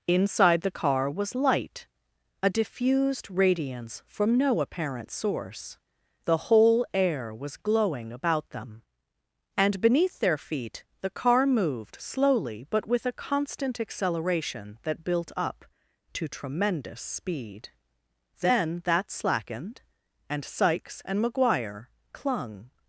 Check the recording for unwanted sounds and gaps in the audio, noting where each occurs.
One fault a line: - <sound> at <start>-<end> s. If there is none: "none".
none